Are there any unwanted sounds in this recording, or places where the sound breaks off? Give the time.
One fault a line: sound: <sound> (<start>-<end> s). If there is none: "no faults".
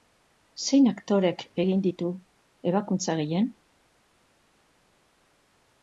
no faults